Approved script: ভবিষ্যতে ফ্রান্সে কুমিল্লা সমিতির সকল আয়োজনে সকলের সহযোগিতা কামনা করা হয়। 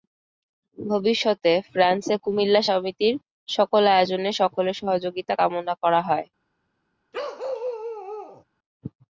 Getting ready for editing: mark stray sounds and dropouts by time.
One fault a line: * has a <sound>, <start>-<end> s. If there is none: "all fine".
* has a bark, 7.1-8.4 s